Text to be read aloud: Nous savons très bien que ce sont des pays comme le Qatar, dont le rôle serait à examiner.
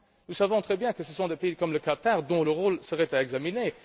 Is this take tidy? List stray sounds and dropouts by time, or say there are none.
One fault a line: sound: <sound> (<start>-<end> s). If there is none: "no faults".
no faults